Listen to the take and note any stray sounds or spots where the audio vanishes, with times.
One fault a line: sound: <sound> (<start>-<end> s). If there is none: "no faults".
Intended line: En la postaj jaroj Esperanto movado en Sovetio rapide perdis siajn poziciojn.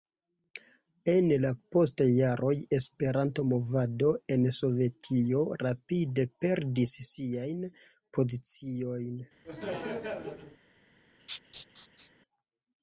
sound: laugh (9.4-10.6 s)
sound: laugh (11.2-12.1 s)